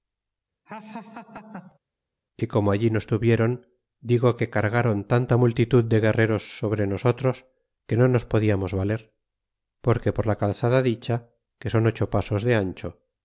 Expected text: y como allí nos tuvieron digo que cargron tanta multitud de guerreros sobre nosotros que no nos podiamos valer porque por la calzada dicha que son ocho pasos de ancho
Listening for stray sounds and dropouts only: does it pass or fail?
fail